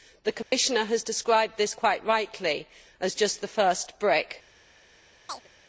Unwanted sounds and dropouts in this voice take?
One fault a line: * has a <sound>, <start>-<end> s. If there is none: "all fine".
* has a dropout, 0.4-0.5 s
* has a chirp, 5.3-5.5 s